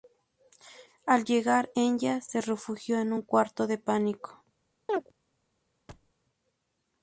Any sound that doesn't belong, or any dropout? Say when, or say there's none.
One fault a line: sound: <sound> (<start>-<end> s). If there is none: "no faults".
sound: chirp (4.9-5.1 s)
sound: thud (5.9-6.1 s)